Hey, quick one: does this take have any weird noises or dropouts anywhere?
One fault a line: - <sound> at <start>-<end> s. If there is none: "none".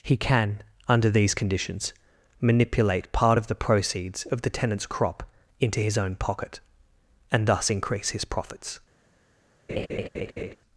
- laugh at 9.7-10.6 s